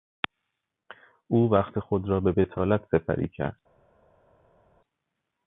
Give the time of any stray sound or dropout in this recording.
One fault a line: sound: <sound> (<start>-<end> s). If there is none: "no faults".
no faults